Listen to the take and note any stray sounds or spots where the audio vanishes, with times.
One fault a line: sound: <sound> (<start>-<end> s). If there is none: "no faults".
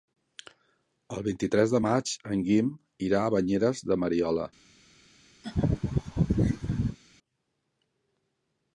sound: laugh (5.4-7.0 s)